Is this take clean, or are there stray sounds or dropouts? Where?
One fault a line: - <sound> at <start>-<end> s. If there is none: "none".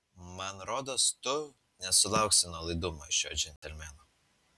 - dropout at 3.6-3.6 s